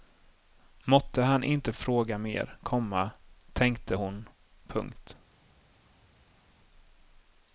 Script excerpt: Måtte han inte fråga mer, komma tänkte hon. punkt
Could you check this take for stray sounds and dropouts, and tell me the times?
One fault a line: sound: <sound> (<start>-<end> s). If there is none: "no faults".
no faults